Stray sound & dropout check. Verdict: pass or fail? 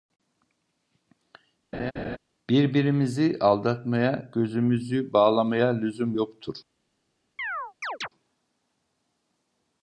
fail